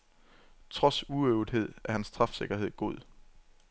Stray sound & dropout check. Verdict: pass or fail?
pass